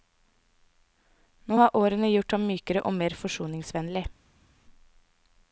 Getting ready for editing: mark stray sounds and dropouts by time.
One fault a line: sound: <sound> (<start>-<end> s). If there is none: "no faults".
no faults